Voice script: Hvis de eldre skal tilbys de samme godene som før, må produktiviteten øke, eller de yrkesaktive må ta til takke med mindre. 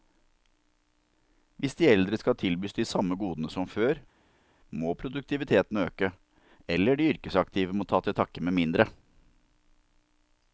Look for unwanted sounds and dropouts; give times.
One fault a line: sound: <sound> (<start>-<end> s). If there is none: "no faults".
no faults